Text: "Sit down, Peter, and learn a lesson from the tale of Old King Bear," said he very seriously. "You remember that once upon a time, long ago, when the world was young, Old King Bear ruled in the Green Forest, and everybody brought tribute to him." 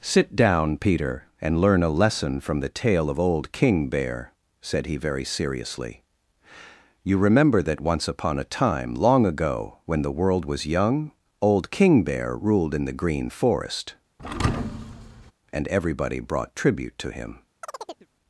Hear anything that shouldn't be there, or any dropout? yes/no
yes